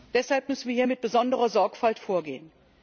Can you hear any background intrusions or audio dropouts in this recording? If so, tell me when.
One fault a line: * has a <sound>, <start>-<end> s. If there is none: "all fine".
all fine